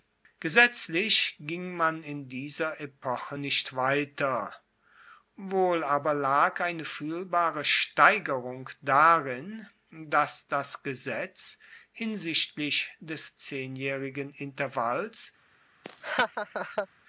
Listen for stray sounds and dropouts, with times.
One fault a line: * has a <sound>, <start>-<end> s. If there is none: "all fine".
* has a laugh, 15.8-16.9 s